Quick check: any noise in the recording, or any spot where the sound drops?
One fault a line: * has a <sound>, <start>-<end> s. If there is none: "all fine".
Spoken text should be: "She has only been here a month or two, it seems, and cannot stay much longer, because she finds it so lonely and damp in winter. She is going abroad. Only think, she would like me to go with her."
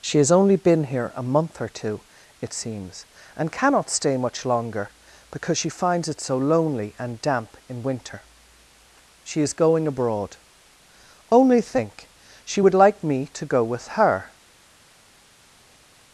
all fine